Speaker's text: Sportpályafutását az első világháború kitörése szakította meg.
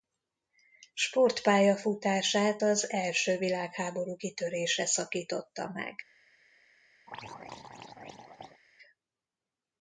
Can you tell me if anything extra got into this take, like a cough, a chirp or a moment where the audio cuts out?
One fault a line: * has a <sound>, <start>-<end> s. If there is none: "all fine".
* has a throat clearing, 7.1-8.6 s